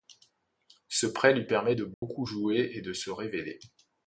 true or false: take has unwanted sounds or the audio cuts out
true